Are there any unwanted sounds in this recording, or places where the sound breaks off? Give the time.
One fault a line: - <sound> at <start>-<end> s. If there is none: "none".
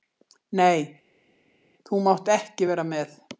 none